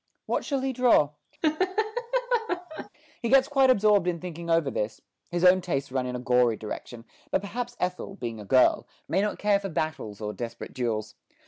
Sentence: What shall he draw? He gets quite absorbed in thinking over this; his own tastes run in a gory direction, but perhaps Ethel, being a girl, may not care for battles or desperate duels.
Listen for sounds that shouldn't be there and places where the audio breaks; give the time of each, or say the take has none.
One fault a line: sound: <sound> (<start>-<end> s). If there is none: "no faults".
sound: laugh (1.4-2.9 s)